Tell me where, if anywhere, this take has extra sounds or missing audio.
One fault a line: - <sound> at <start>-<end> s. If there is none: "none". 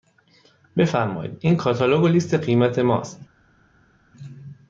none